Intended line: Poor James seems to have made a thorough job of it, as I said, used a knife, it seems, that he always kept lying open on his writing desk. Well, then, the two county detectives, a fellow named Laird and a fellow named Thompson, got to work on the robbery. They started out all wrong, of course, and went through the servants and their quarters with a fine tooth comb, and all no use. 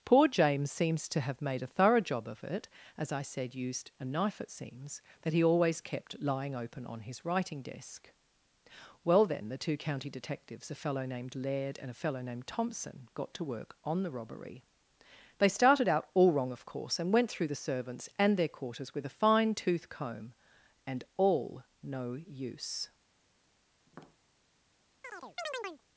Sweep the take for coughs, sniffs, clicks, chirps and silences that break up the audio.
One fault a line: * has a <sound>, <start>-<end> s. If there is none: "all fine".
* has a tap, 23.9-24.2 s
* has a chirp, 25.0-25.8 s